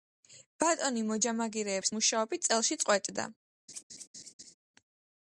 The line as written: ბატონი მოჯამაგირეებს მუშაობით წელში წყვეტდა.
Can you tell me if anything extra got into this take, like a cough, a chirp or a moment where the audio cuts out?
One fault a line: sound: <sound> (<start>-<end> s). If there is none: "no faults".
sound: laugh (3.7-4.5 s)